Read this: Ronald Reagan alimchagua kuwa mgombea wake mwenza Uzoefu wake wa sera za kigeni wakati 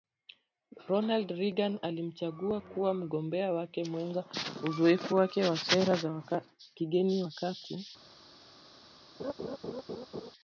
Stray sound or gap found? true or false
true